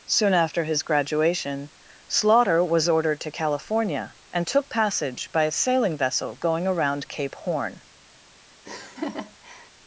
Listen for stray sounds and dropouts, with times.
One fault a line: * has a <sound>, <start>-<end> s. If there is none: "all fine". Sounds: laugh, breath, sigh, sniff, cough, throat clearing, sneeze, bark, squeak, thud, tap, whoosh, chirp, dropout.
* has a laugh, 8.6-9.7 s